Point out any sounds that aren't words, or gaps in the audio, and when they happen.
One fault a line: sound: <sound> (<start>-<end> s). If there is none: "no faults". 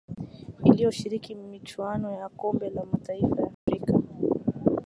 sound: dropout (3.5-3.7 s)